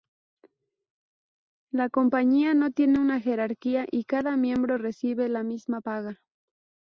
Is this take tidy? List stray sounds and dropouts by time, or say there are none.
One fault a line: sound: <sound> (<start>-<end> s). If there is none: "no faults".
no faults